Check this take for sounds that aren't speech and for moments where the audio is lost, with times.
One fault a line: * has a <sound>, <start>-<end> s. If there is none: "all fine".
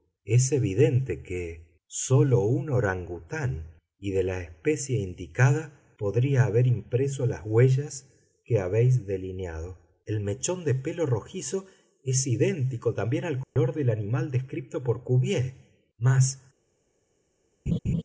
* has a dropout, 13.4-13.6 s
* has a laugh, 17.7-18.0 s